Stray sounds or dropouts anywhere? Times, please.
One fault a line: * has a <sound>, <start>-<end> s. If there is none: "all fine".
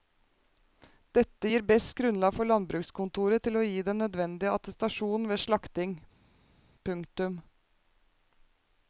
all fine